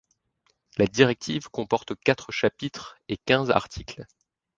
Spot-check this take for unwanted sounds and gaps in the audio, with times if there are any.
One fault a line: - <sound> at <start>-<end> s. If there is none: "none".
none